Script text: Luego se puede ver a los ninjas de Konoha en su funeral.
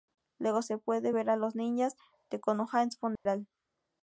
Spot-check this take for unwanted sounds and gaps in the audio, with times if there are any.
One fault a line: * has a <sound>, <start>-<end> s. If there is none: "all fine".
* has a dropout, 3.2-3.3 s